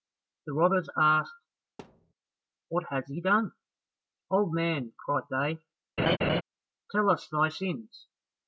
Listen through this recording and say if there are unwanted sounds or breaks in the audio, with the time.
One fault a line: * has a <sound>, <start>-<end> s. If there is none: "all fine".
* has a thud, 1.8-2.1 s
* has a laugh, 6.0-6.4 s